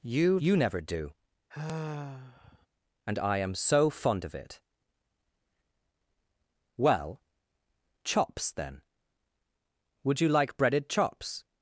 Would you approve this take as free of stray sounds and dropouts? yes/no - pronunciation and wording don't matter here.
no